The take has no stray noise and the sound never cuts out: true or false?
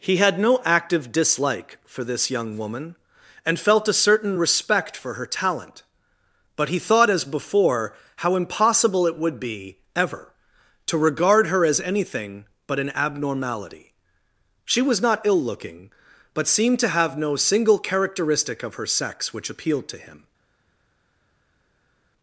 true